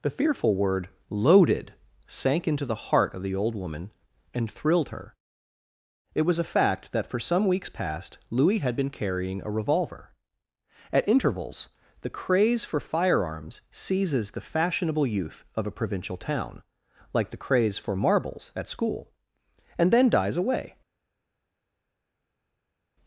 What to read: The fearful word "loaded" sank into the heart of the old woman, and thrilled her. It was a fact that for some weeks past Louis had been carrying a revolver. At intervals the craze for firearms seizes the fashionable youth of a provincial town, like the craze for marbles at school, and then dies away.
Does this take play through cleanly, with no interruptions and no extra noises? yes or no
yes